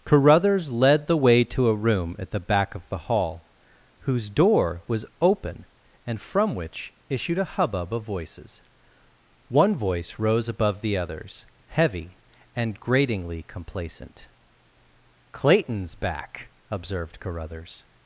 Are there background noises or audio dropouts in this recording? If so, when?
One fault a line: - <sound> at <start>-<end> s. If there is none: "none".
none